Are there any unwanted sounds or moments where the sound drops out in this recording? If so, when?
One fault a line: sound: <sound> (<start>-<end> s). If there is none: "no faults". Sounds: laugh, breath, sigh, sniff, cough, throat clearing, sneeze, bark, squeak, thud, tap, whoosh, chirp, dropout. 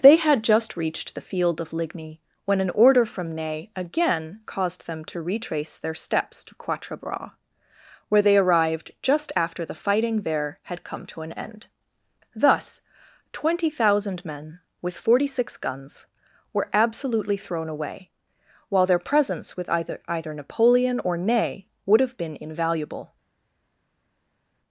no faults